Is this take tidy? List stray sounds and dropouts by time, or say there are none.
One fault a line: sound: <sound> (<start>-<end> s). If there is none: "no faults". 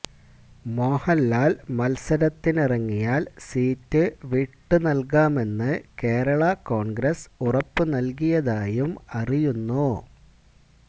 no faults